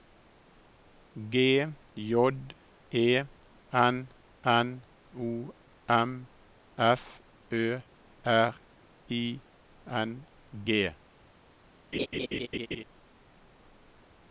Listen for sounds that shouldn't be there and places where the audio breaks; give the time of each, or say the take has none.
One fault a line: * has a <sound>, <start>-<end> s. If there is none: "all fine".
* has a laugh, 11.9-12.8 s